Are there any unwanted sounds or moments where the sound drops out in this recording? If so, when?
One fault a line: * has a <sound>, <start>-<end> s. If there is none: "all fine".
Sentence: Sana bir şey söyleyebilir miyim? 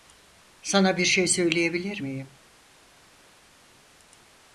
all fine